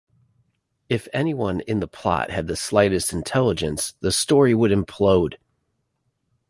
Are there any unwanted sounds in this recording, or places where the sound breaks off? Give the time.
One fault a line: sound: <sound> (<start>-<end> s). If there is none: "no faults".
no faults